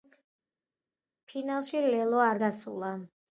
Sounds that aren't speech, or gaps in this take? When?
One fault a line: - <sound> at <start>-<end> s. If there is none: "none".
none